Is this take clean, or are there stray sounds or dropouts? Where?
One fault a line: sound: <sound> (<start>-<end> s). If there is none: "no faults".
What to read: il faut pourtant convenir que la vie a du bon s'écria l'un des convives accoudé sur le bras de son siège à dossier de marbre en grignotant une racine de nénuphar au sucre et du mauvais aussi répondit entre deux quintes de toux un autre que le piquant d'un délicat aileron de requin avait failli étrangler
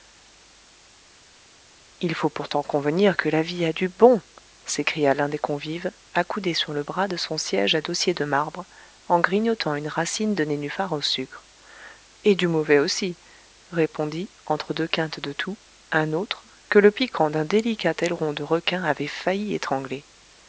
no faults